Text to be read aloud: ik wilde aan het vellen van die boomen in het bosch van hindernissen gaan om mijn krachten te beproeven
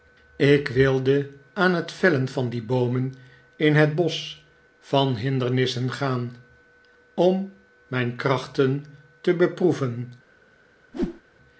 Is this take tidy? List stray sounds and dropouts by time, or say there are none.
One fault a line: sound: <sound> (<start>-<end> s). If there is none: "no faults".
sound: whoosh (10.9-11.2 s)